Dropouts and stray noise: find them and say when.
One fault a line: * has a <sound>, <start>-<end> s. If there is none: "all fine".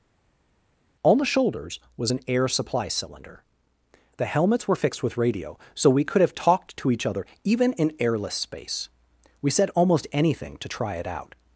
all fine